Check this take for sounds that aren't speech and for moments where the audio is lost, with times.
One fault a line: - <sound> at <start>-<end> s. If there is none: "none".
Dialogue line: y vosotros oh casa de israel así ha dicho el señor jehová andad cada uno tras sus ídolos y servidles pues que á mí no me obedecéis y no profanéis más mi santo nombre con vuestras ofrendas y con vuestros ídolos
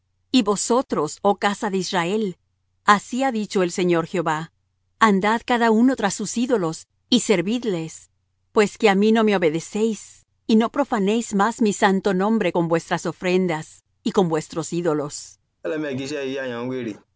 - laugh at 15.6-17.0 s